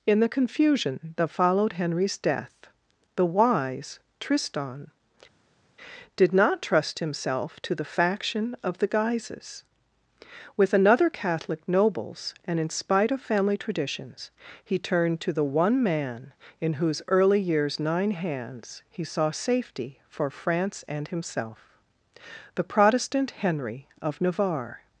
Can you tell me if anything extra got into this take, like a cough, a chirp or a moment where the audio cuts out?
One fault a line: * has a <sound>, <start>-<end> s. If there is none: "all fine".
all fine